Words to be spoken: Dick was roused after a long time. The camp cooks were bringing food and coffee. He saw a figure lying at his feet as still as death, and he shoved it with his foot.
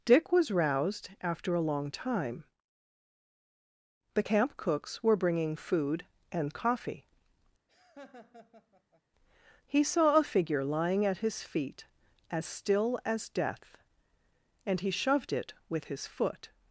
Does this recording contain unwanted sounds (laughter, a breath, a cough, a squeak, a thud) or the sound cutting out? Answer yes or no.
yes